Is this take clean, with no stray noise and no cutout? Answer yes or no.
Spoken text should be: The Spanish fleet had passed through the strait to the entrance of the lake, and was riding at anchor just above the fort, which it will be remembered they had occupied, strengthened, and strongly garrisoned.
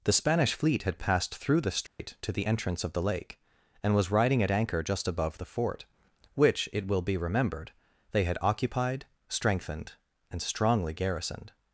no